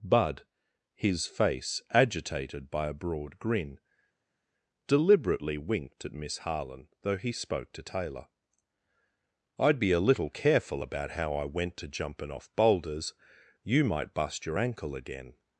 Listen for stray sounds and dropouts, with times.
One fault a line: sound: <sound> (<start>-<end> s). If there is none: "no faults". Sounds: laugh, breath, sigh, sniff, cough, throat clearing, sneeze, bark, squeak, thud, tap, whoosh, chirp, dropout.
no faults